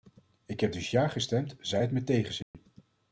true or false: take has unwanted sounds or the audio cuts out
true